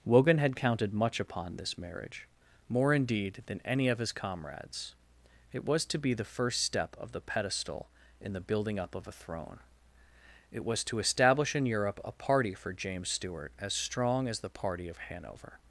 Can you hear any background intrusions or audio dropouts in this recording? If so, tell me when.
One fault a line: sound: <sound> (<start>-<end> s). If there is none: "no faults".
no faults